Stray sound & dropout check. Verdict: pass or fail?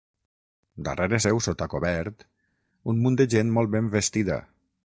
pass